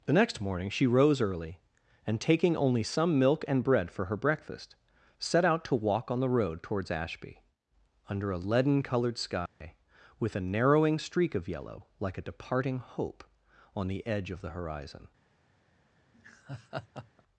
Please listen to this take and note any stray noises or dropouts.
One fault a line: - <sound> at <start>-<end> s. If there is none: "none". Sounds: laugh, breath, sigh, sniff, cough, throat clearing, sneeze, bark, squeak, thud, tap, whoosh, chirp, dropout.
- dropout at 9.5-9.6 s
- laugh at 16.1-17.2 s